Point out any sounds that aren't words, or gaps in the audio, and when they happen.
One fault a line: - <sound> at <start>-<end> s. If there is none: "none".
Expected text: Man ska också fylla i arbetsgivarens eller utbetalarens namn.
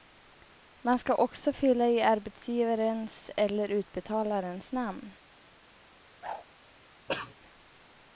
- whoosh at 6.2-6.4 s
- cough at 7.1-7.3 s